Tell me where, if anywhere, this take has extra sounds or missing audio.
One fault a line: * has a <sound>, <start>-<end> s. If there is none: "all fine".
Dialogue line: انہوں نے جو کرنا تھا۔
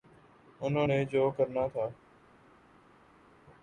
all fine